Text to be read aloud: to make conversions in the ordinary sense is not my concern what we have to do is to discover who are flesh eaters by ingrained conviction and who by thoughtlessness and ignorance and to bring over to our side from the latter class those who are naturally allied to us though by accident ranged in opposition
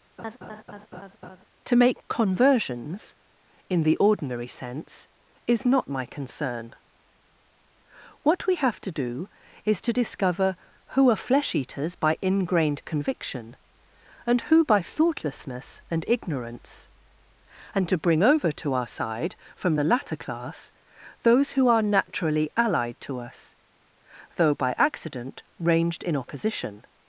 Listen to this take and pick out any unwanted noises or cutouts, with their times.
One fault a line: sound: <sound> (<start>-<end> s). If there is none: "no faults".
sound: laugh (0.2-1.4 s)